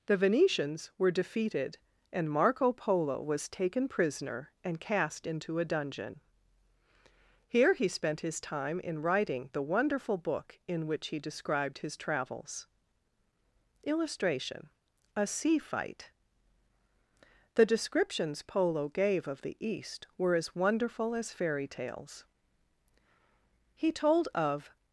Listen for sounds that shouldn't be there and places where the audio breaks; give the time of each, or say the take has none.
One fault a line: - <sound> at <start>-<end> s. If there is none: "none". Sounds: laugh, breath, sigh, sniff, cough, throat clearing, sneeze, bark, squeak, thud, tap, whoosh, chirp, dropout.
none